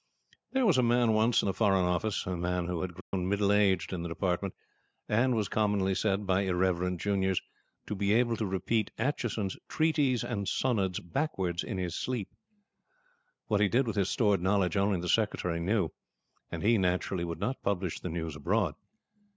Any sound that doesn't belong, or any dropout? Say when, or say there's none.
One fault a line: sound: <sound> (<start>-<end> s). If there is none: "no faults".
sound: dropout (3.0-3.1 s)